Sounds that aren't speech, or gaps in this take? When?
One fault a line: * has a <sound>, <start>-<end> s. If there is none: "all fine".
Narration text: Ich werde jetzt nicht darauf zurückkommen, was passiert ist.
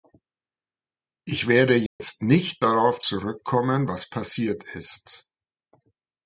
* has a dropout, 1.9-2.0 s